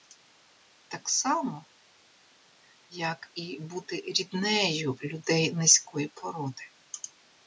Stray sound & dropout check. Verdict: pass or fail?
pass